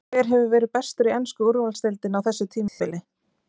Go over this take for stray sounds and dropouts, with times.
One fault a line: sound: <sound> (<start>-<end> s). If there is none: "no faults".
sound: dropout (2.7-2.8 s)